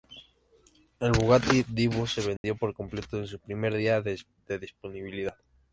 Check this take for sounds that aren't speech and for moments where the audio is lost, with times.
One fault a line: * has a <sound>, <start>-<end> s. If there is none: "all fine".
* has a dropout, 2.4-2.4 s